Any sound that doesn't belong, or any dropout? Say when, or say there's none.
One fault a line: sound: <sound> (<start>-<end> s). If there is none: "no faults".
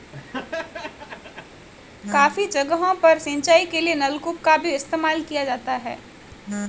sound: laugh (0.1-1.7 s)